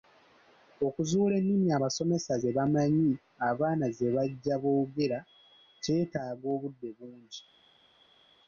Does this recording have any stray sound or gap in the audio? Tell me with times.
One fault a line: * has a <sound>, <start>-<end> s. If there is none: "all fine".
all fine